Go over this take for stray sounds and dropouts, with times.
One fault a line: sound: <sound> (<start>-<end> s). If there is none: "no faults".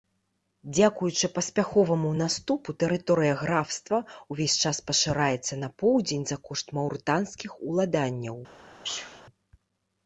sound: sneeze (8.8-9.2 s)